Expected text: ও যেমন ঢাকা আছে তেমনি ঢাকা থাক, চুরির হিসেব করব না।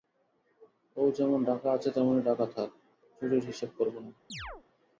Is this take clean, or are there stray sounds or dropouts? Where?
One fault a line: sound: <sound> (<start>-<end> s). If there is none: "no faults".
sound: chirp (4.3-4.6 s)